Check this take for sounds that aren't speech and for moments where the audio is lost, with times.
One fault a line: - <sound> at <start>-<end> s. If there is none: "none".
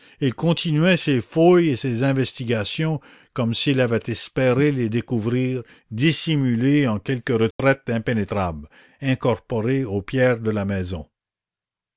- dropout at 7.5-7.6 s